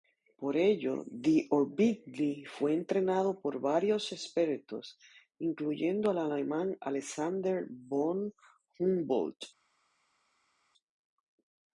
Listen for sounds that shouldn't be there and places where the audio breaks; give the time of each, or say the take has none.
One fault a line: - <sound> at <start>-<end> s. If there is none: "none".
none